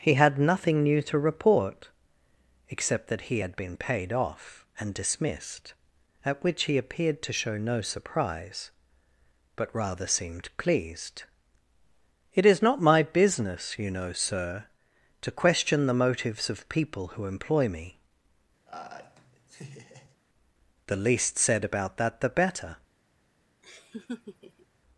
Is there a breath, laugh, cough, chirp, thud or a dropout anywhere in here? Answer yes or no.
yes